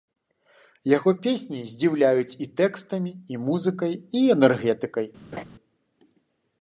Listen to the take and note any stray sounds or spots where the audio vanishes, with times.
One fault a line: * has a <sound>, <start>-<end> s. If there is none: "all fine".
* has a laugh, 5.3-5.4 s